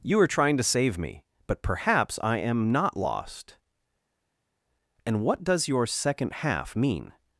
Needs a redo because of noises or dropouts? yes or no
no